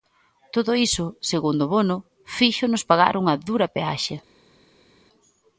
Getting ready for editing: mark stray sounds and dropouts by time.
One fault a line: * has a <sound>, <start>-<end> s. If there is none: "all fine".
all fine